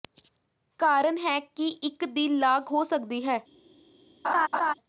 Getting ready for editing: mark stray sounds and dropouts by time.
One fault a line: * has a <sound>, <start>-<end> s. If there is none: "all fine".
* has a laugh, 4.2-4.7 s